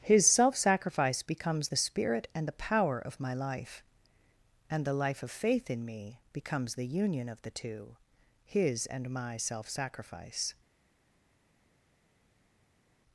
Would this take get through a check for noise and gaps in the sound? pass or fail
pass